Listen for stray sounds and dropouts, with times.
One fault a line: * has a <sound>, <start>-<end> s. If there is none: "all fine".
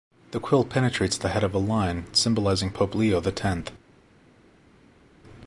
all fine